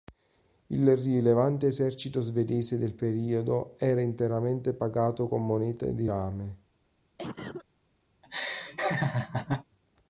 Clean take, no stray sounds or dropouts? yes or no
no